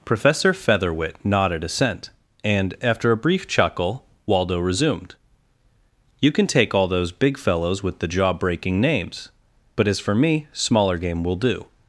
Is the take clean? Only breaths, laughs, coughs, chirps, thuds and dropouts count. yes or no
yes